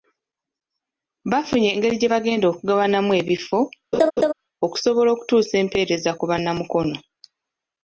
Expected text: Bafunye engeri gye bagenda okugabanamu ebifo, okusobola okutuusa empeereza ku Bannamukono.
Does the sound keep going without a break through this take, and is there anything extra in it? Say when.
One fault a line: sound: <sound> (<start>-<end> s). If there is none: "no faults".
sound: laugh (3.9-4.3 s)